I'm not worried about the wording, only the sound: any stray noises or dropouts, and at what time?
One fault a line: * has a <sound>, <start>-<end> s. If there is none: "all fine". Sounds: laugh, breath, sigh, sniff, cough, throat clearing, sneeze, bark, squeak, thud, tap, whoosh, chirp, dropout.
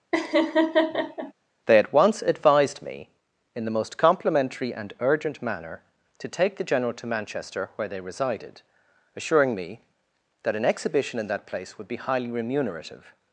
* has a laugh, 0.1-1.3 s